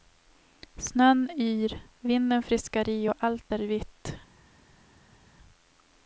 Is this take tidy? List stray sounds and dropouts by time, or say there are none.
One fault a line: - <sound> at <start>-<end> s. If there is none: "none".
none